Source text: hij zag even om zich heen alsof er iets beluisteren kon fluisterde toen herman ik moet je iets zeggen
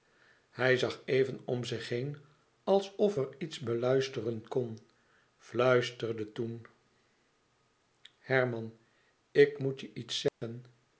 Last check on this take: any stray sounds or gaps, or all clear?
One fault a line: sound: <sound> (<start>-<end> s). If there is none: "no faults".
sound: dropout (10.3-10.4 s)